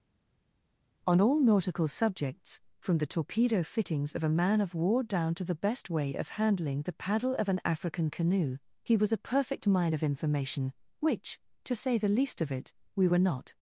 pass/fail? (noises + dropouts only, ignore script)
pass